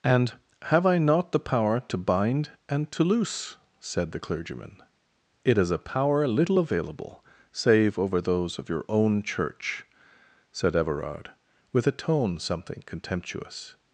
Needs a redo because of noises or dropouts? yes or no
no